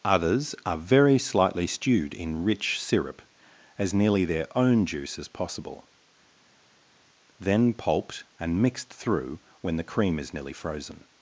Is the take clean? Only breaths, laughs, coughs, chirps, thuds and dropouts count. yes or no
yes